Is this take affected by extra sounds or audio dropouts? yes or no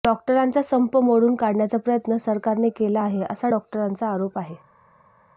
no